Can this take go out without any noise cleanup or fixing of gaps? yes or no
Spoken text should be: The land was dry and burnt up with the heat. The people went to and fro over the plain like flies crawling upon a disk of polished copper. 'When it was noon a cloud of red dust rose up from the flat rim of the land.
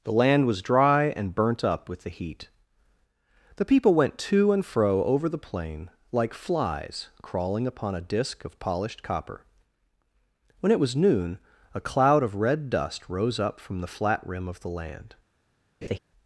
no